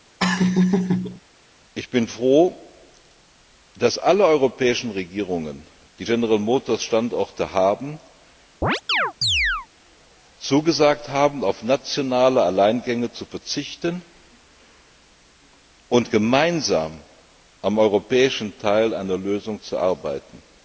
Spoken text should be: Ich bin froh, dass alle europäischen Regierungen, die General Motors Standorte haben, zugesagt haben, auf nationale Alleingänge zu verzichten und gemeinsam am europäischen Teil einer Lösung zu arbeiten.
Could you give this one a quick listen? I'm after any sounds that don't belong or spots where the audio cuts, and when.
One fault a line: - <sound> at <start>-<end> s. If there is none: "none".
- laugh at 0.2-1.2 s
- chirp at 8.6-9.7 s